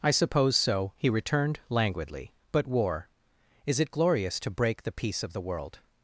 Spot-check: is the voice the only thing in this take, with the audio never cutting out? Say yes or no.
yes